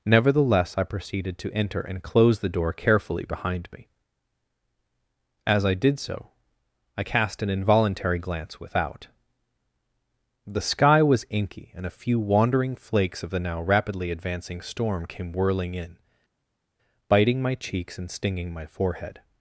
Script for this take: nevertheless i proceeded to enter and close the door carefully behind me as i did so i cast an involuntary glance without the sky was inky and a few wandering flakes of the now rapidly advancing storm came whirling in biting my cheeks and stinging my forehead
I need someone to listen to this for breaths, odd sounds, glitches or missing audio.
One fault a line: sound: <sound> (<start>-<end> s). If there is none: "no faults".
no faults